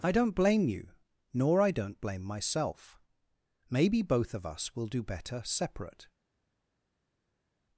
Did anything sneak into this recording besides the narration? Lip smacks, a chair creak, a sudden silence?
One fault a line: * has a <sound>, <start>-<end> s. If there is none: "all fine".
all fine